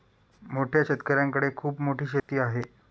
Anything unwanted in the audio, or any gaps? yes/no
yes